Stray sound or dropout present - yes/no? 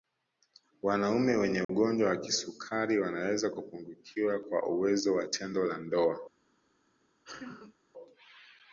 yes